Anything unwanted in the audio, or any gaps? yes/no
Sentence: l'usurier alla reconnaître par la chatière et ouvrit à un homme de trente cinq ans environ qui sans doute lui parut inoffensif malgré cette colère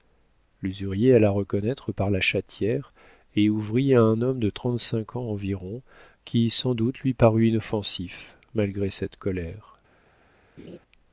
yes